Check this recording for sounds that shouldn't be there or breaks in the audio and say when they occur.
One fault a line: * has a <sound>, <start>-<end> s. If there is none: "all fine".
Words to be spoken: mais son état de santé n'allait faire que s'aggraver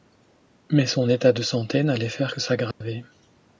* has a dropout, 2.7-2.8 s